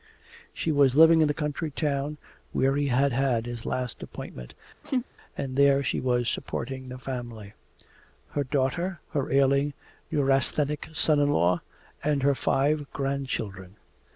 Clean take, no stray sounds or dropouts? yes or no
no